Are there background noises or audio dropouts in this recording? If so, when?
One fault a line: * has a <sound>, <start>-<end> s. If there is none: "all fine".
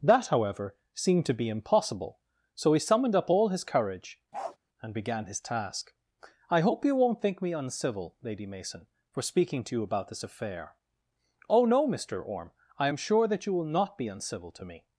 * has a bark, 4.3-4.6 s